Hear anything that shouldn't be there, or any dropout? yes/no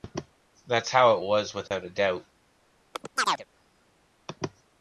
yes